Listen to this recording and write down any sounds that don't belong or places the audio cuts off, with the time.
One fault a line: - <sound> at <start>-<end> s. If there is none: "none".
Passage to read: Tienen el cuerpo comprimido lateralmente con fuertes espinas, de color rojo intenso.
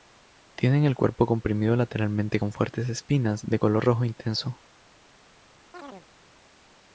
- chirp at 5.7-6.1 s